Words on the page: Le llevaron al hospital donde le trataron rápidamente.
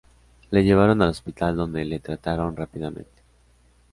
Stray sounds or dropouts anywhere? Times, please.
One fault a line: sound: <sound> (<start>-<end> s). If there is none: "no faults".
no faults